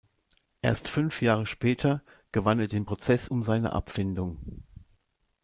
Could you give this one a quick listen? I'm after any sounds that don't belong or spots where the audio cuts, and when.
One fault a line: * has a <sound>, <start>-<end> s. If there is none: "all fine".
all fine